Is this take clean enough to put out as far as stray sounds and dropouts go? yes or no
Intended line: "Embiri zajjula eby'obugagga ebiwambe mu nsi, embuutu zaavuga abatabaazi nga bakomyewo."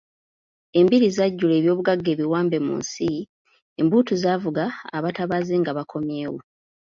yes